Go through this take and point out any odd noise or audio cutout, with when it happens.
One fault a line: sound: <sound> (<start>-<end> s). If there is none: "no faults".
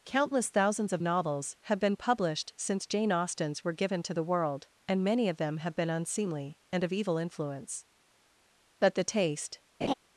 sound: laugh (9.8-9.9 s)